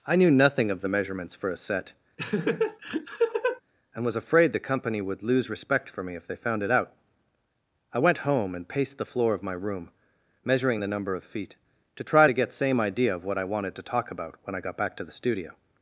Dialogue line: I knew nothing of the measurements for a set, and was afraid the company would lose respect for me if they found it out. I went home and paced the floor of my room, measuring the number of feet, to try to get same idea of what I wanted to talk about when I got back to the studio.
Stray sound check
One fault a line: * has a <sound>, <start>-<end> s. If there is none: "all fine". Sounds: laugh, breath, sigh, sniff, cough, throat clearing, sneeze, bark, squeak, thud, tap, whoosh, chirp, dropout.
* has a laugh, 2.2-3.6 s